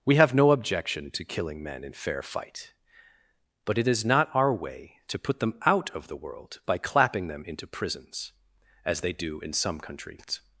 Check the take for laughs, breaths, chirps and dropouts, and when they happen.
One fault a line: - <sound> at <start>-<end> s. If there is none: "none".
none